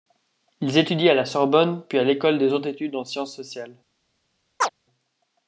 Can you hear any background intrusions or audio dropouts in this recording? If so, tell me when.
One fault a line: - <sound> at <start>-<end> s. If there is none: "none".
- chirp at 4.6-4.7 s